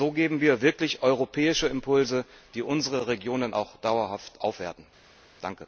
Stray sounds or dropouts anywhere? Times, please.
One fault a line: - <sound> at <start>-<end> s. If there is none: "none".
none